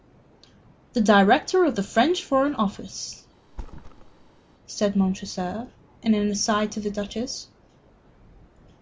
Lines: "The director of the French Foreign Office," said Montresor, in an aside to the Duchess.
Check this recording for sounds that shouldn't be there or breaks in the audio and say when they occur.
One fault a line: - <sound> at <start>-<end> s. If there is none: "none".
- thud at 3.5-4.4 s